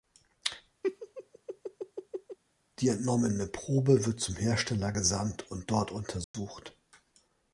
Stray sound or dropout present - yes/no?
yes